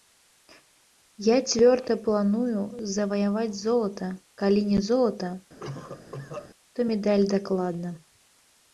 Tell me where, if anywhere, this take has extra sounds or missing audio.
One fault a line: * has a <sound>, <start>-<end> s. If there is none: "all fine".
* has a cough, 5.6-6.5 s